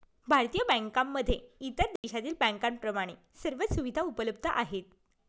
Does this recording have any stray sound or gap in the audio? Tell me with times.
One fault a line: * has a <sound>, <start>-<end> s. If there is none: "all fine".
* has a dropout, 2.0-2.0 s